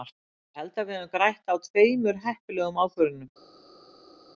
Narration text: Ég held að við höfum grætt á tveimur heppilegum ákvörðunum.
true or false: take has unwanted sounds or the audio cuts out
false